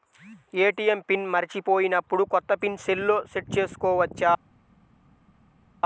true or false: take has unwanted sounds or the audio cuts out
false